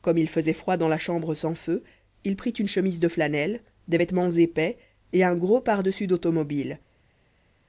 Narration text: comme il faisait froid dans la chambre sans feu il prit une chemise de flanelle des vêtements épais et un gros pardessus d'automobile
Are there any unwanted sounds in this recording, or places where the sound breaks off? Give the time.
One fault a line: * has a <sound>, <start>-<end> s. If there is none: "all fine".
all fine